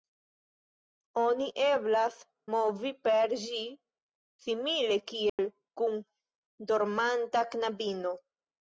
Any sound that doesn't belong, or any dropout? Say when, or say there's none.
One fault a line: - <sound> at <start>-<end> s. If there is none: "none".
- dropout at 5.3-5.4 s